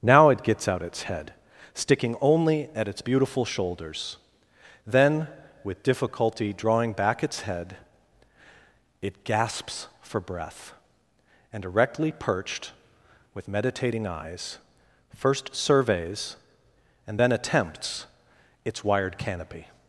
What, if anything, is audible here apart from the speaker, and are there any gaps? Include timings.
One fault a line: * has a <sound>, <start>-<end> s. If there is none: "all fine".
all fine